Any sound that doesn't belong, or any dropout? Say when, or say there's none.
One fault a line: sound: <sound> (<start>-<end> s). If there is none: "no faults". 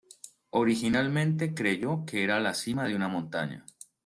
no faults